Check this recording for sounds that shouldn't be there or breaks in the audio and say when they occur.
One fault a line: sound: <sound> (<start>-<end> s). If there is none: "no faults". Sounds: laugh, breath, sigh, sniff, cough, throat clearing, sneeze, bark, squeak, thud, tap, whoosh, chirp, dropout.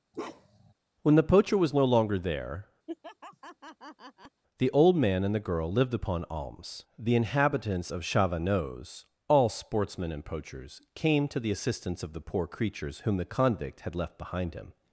sound: bark (0.1-0.7 s)
sound: laugh (2.9-4.4 s)